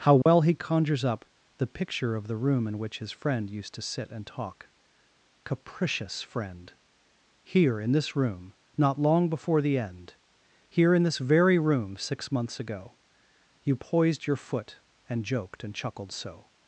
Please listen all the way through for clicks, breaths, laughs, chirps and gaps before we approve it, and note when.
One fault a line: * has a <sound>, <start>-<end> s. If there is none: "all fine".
* has a dropout, 0.2-0.3 s